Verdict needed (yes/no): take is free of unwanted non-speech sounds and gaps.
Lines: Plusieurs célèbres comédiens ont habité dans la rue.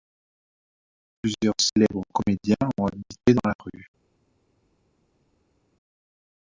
yes